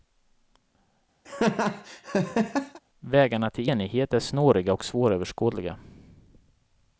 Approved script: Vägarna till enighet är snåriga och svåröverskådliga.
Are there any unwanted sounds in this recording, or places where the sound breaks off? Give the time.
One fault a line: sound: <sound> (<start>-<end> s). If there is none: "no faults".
sound: laugh (1.2-2.8 s)